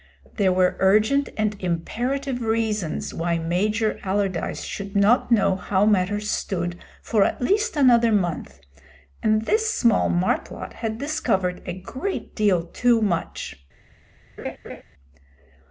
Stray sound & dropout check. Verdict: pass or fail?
fail